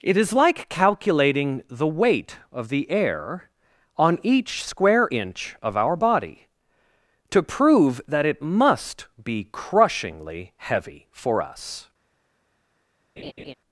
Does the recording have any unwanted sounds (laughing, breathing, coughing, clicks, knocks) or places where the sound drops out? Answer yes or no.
yes